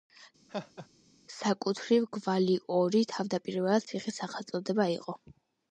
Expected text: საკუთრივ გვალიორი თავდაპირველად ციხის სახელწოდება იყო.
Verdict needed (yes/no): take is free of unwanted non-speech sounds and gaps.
no